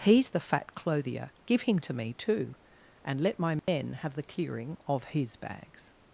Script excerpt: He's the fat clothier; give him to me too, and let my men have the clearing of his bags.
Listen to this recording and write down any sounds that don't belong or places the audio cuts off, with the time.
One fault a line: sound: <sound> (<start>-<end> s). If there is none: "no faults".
sound: dropout (3.6-3.7 s)